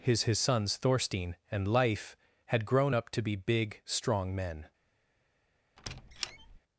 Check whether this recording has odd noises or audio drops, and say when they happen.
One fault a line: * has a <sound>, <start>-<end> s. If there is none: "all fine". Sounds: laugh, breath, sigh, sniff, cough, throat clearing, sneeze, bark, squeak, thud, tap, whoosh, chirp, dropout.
* has a squeak, 5.8-6.6 s